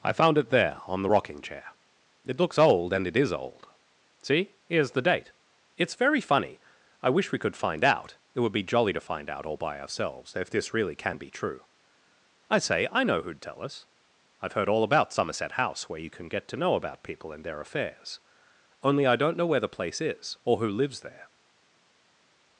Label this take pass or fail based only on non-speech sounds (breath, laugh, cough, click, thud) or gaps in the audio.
pass